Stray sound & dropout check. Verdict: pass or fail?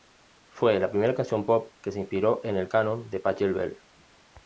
pass